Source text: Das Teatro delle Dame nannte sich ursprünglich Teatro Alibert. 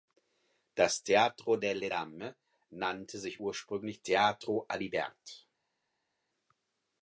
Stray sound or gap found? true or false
false